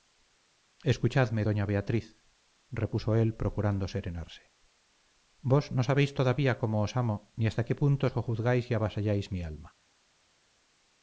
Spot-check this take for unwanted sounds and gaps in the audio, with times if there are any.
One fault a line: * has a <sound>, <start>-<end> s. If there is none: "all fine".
all fine